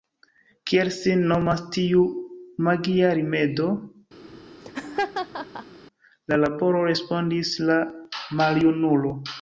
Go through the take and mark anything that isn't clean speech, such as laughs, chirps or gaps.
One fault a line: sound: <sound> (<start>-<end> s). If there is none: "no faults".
sound: laugh (4.2-5.8 s)